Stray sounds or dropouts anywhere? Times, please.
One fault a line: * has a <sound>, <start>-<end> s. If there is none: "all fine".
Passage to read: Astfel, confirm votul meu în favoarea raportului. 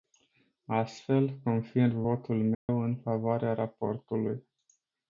* has a dropout, 2.5-2.7 s